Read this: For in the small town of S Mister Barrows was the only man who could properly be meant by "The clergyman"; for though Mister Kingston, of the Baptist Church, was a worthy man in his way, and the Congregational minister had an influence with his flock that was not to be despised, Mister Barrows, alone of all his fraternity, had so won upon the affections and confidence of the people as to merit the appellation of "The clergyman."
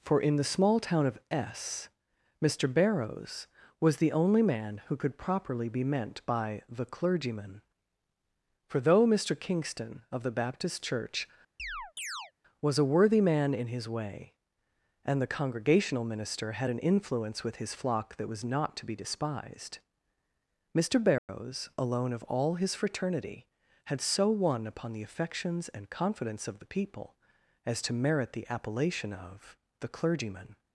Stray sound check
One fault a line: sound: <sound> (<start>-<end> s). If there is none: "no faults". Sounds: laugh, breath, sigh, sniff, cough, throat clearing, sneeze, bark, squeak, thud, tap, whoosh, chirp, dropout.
sound: chirp (11.6-12.3 s)
sound: dropout (21.2-21.3 s)